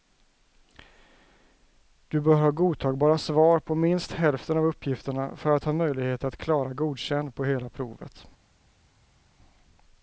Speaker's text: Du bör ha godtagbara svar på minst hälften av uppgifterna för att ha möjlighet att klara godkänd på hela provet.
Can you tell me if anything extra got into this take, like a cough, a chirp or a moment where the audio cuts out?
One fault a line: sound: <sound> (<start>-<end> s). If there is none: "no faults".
no faults